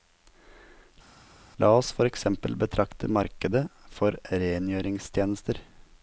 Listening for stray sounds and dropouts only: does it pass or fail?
pass